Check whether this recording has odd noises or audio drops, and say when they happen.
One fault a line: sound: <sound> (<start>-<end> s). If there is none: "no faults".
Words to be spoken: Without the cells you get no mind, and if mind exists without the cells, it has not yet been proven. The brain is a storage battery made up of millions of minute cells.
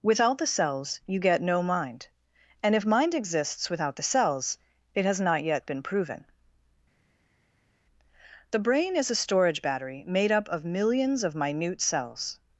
no faults